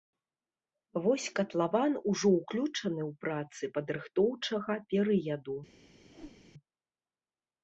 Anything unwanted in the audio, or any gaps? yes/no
yes